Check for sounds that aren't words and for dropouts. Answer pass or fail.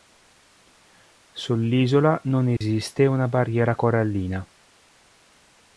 fail